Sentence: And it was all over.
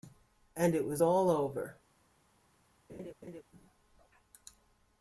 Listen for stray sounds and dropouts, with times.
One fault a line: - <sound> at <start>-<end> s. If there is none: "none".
- laugh at 2.9-3.4 s